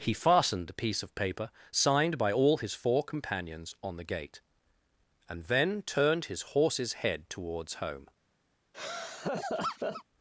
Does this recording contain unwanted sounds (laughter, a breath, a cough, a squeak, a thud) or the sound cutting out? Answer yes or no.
yes